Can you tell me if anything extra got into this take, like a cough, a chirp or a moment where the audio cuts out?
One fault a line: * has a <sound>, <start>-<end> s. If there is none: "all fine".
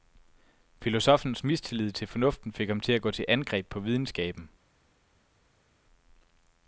all fine